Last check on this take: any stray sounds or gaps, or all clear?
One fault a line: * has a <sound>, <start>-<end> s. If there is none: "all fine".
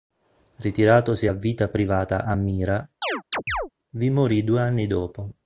* has a chirp, 3.0-3.7 s